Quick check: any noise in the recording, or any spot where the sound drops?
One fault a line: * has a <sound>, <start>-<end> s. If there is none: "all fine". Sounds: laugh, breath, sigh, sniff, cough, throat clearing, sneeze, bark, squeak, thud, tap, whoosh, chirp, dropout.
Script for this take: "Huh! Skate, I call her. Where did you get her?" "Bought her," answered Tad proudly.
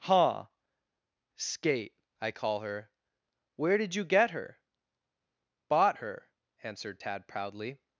all fine